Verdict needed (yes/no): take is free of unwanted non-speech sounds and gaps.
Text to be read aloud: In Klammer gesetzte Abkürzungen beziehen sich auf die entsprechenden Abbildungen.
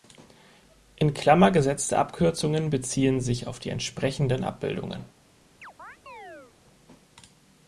no